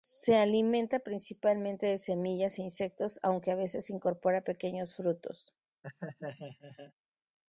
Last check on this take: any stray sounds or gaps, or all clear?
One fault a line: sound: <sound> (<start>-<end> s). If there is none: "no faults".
sound: laugh (5.8-6.9 s)